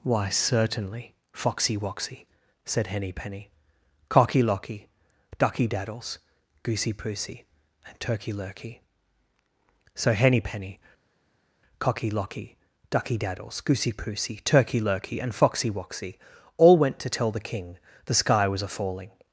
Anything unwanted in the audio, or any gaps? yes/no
no